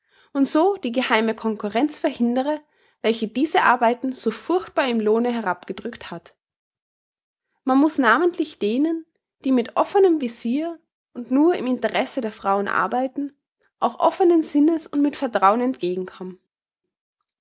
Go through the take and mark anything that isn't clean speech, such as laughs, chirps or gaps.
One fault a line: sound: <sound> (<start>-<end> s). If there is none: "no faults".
no faults